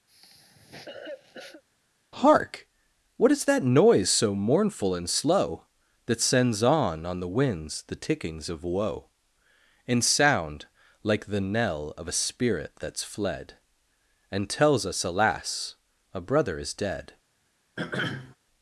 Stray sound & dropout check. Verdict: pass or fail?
fail